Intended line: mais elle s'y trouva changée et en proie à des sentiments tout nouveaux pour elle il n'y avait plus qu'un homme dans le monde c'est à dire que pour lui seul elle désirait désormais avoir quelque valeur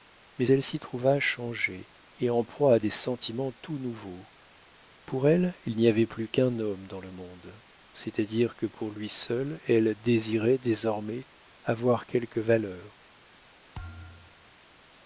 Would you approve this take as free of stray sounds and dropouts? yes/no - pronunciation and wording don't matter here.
no